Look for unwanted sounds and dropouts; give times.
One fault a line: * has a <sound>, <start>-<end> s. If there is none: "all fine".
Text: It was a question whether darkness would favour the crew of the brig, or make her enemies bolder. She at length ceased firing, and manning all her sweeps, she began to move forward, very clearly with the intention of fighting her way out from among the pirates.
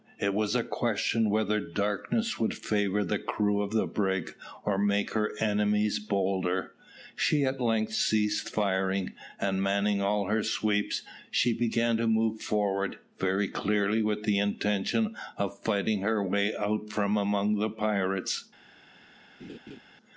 * has a laugh, 19.4-19.8 s